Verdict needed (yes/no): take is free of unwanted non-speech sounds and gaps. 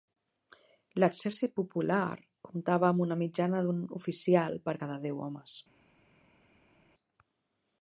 yes